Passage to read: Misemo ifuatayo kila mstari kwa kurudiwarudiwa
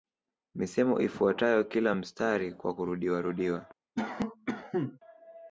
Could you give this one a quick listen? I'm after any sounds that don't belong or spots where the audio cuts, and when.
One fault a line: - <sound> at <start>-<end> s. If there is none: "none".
- cough at 4.0-5.0 s